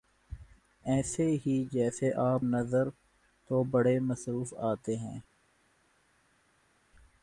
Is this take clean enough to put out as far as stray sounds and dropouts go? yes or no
yes